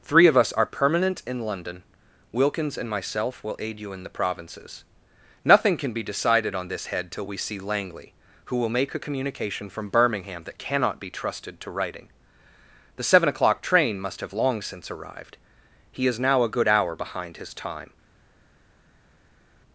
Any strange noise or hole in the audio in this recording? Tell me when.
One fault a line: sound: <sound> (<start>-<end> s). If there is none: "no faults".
no faults